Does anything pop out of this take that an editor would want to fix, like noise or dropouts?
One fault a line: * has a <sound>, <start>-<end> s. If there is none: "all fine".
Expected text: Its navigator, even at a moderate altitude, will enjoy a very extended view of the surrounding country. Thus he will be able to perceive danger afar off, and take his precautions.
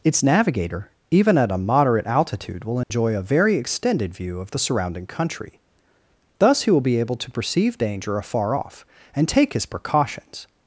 * has a dropout, 2.8-2.9 s